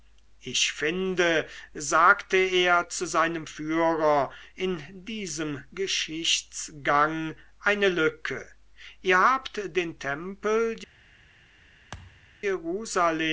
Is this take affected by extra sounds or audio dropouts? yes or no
yes